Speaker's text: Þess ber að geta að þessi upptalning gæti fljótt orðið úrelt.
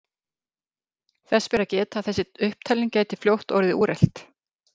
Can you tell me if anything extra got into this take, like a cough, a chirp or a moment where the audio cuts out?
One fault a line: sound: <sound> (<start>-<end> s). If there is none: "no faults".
no faults